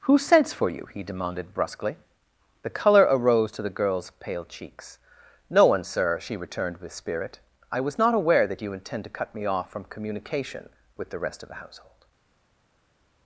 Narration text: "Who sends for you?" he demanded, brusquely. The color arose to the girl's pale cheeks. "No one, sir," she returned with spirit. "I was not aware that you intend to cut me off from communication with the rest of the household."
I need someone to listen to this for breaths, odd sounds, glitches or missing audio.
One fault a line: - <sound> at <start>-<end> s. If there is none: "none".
none